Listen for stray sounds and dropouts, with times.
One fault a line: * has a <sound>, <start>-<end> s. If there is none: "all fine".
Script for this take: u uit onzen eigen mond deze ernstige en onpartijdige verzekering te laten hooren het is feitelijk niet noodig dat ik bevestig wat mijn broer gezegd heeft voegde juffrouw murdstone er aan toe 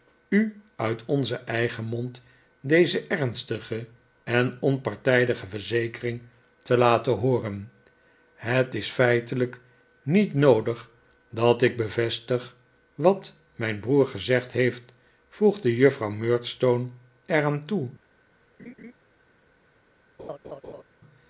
* has a laugh, 18.6-18.9 s
* has a laugh, 20.2-20.8 s